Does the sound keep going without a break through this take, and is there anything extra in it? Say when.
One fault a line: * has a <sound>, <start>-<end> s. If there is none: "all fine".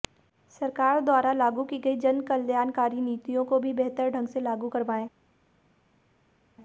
all fine